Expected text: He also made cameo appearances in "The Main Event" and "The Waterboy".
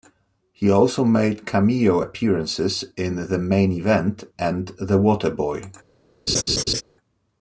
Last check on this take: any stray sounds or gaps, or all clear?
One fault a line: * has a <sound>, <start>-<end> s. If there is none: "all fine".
* has a laugh, 6.3-6.8 s